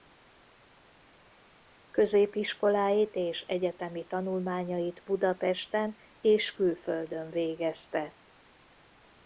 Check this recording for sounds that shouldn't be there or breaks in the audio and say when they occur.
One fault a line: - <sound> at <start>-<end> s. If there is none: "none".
none